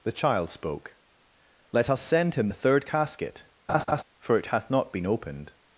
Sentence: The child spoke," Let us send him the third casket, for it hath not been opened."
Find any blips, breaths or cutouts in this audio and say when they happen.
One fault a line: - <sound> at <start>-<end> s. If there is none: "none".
- laugh at 3.7-4.0 s